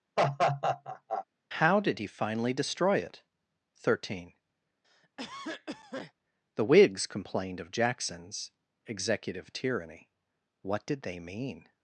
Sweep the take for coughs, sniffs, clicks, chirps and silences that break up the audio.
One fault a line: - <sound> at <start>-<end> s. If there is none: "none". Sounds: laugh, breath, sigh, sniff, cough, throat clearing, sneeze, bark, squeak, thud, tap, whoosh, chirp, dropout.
- laugh at 0.2-1.3 s
- cough at 4.8-6.1 s